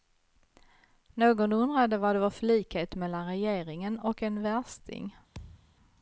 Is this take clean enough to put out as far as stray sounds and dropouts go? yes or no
no